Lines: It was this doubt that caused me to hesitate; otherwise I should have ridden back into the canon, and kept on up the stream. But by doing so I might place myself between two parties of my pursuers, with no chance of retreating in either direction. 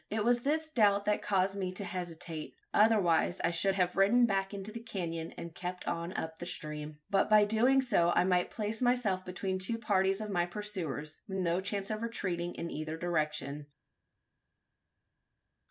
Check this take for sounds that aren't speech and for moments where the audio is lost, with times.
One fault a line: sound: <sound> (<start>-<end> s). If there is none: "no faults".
no faults